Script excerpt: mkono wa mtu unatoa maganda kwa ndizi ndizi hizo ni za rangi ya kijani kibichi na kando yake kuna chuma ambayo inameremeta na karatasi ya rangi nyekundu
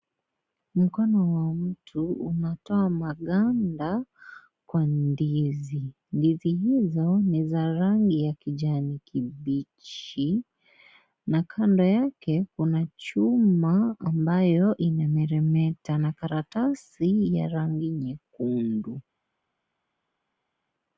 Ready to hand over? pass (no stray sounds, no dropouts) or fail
pass